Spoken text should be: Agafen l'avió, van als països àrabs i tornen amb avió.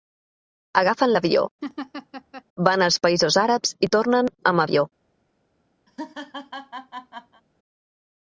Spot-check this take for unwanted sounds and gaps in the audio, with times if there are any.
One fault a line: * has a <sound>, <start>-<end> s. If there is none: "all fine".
* has a laugh, 1.6-2.4 s
* has a laugh, 5.9-7.4 s